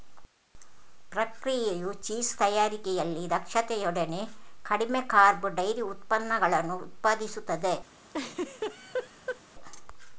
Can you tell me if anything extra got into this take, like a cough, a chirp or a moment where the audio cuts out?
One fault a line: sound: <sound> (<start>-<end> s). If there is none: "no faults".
sound: laugh (8.1-9.4 s)